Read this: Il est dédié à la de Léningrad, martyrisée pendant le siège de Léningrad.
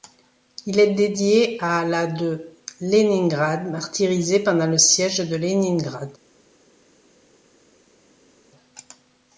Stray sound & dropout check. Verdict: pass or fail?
pass